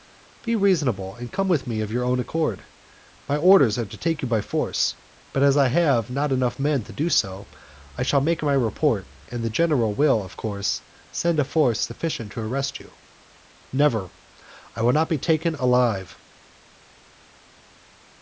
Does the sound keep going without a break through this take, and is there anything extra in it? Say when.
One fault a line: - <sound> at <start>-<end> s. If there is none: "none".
none